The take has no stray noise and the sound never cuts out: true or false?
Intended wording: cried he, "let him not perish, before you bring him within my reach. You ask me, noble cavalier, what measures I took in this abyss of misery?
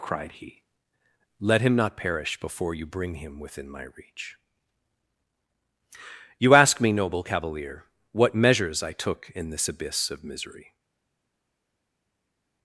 true